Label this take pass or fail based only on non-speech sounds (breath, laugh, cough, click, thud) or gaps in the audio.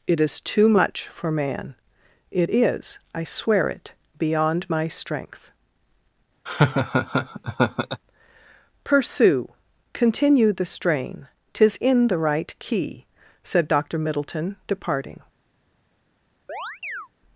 fail